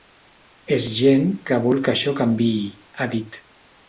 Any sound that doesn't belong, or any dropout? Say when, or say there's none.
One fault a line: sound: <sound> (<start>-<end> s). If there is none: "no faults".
no faults